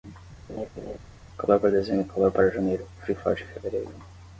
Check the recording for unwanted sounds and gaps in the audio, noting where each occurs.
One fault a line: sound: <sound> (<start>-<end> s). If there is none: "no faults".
sound: laugh (0.5-1.0 s)